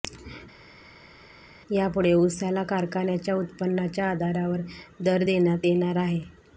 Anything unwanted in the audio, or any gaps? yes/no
no